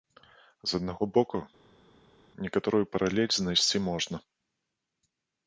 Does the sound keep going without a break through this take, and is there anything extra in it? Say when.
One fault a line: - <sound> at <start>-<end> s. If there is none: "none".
none